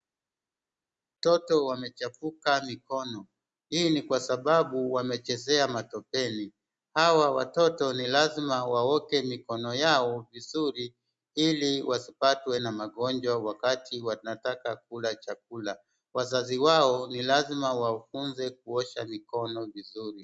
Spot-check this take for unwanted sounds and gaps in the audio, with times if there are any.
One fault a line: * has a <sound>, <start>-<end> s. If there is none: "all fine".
all fine